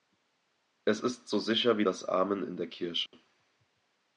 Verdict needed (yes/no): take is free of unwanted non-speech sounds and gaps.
no